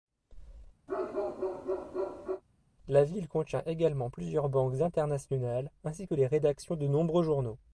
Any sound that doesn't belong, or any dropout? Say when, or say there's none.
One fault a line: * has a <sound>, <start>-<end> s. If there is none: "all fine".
* has a bark, 0.9-2.4 s